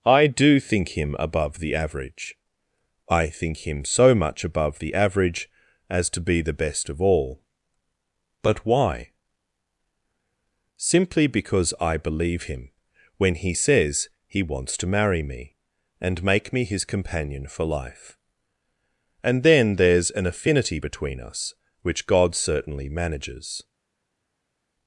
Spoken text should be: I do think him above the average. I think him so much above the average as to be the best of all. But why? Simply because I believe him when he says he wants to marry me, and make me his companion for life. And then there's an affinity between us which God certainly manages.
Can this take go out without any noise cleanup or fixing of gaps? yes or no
yes